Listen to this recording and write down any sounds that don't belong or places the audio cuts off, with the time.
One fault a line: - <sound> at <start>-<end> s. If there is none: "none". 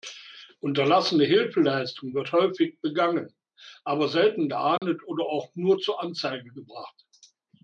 - dropout at 4.8-4.8 s